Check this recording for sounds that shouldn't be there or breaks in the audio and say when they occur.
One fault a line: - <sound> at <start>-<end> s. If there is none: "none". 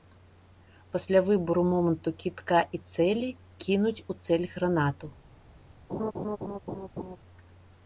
- laugh at 5.9-7.2 s